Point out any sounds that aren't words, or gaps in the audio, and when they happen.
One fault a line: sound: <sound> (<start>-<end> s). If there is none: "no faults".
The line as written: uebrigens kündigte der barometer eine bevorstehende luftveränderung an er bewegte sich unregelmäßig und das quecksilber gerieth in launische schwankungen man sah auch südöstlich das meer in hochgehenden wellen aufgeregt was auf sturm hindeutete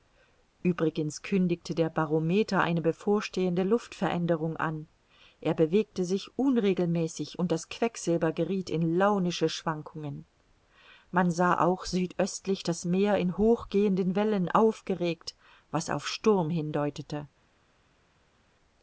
no faults